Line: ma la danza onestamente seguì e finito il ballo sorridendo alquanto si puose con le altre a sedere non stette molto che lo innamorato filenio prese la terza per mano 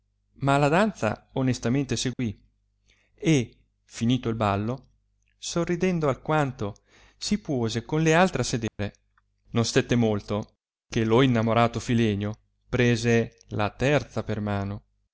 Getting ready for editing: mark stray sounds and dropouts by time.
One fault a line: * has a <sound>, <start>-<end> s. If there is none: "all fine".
* has a dropout, 2.1-2.2 s
* has a dropout, 8.7-8.8 s